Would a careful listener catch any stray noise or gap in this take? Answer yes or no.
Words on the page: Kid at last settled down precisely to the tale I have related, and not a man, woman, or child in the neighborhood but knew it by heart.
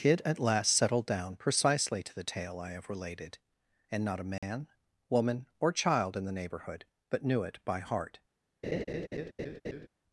yes